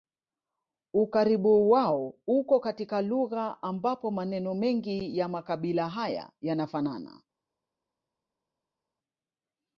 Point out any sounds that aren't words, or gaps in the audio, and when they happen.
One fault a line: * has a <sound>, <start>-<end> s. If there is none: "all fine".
all fine